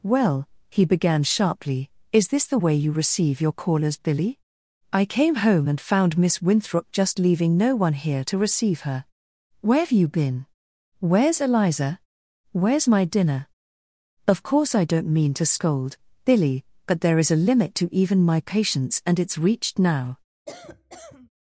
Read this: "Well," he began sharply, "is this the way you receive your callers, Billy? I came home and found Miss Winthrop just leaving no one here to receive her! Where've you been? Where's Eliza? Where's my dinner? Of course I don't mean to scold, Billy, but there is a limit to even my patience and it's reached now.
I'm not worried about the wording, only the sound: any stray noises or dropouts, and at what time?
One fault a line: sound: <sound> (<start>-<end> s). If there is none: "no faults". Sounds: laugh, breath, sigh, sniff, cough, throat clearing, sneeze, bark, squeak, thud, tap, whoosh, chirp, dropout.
sound: cough (20.5-21.3 s)